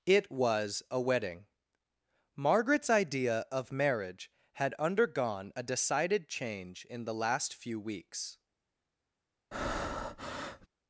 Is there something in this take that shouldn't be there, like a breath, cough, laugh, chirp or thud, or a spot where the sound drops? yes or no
yes